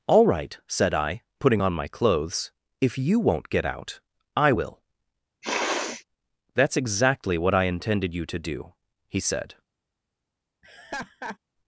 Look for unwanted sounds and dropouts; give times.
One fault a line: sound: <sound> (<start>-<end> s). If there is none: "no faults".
sound: sniff (5.4-6.0 s)
sound: laugh (10.6-11.4 s)